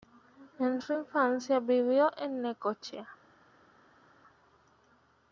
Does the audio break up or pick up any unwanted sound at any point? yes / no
no